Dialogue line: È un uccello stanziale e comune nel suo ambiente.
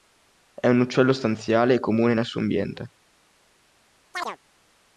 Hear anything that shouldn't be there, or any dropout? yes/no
yes